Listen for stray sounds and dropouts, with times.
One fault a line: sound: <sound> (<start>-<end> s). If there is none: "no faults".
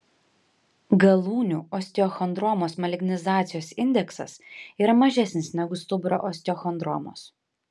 no faults